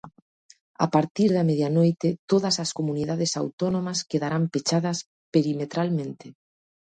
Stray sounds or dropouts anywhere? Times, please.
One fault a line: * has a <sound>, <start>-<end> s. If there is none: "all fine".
all fine